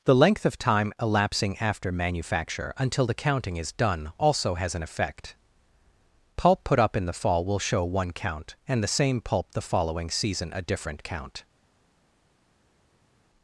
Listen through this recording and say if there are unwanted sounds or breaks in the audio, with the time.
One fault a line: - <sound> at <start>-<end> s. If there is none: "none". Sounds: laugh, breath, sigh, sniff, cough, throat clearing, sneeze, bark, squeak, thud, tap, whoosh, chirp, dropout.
none